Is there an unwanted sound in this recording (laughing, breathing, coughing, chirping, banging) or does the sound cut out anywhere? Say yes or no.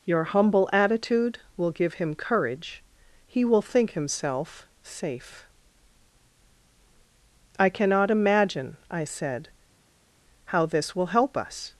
no